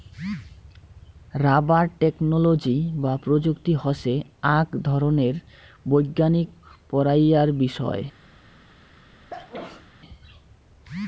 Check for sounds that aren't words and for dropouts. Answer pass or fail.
fail